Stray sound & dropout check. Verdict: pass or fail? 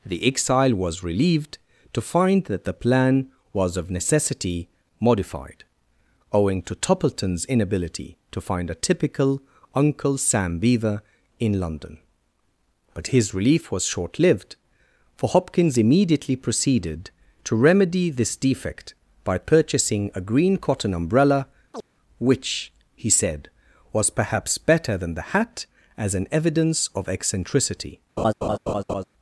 fail